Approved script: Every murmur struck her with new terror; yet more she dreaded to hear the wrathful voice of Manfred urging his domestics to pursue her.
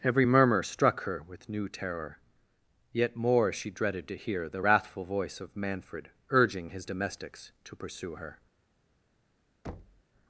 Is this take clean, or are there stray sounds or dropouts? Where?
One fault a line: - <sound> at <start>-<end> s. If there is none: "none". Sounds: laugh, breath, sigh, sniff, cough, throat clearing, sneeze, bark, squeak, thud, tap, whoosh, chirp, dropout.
- thud at 9.6-10.0 s